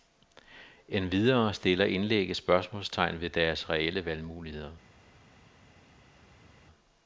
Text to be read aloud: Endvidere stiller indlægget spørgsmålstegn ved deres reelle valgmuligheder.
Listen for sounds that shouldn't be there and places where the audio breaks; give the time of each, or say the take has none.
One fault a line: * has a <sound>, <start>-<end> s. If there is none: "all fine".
all fine